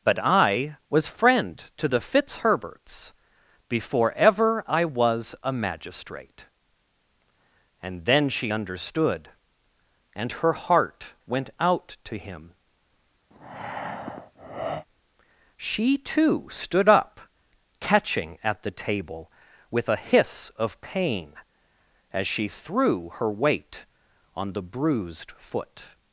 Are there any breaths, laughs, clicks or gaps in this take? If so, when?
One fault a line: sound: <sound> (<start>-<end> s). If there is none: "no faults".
sound: breath (13.3-14.9 s)